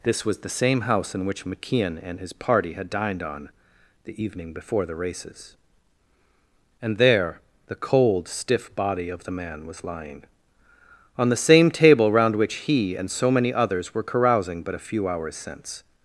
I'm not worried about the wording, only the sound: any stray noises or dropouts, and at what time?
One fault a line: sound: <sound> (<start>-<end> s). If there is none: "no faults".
no faults